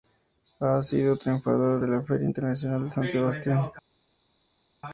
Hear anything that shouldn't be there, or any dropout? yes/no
no